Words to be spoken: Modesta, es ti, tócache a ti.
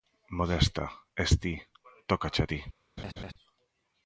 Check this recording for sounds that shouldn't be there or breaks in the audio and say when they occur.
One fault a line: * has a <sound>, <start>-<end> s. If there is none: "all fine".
* has a laugh, 3.0-3.3 s